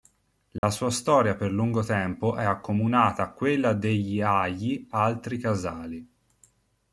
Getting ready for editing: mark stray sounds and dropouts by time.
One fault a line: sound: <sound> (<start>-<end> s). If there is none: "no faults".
sound: dropout (0.6-0.6 s)